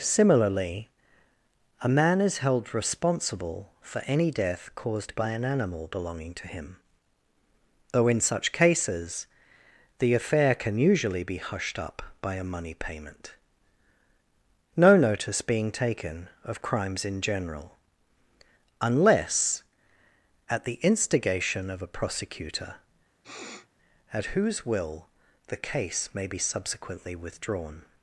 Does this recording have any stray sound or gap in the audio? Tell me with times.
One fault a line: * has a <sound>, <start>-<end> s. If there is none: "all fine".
* has a sniff, 23.2-23.7 s